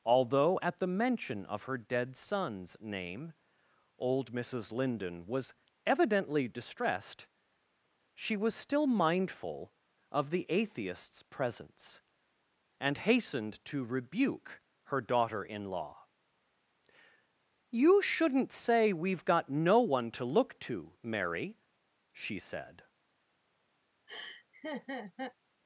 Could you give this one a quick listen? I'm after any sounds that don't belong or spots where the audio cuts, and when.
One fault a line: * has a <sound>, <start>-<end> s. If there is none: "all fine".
* has a laugh, 24.1-25.4 s